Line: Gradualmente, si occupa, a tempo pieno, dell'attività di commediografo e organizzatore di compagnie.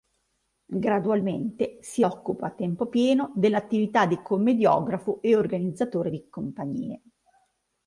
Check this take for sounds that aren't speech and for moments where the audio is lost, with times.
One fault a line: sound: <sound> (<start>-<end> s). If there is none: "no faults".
no faults